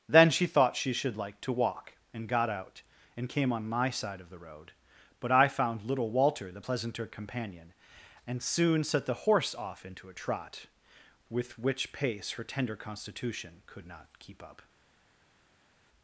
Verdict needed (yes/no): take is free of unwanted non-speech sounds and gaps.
yes